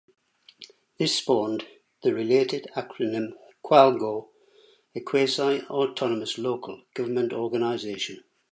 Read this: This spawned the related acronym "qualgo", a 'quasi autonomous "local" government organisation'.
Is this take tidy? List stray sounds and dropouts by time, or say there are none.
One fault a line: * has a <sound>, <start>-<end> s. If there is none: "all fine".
all fine